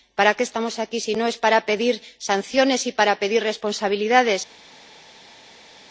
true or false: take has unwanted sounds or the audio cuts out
false